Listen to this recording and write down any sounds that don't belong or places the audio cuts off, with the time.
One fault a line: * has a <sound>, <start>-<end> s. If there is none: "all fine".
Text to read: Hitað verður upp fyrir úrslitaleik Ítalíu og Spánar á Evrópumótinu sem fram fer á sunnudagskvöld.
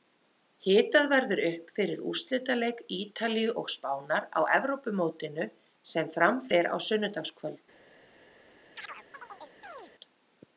* has a chirp, 8.8-9.9 s